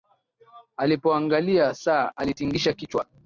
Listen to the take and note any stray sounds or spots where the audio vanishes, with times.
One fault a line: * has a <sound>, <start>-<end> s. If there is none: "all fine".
all fine